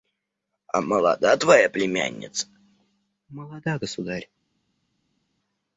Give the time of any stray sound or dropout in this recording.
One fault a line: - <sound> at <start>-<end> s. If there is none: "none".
none